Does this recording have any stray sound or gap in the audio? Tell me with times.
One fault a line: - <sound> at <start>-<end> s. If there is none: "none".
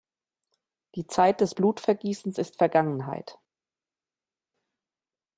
none